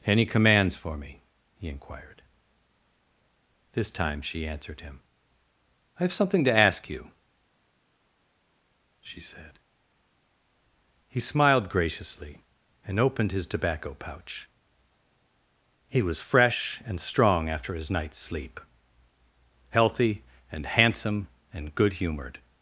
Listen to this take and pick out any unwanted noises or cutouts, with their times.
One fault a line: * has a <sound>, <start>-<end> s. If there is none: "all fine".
all fine